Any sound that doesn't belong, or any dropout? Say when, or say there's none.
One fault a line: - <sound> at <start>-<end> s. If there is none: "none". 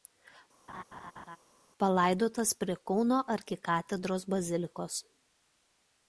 - laugh at 0.7-1.4 s